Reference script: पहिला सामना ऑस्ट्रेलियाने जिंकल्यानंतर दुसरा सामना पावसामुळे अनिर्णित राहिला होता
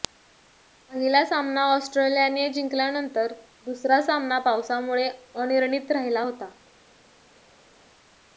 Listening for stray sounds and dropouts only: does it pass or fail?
pass